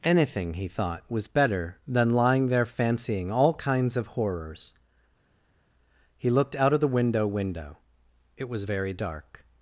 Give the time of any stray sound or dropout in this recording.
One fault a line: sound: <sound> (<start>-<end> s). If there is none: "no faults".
no faults